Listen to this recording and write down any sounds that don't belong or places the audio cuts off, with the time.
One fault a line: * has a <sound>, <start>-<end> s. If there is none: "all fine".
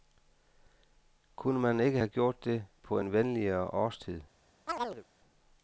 * has a chirp, 4.7-5.0 s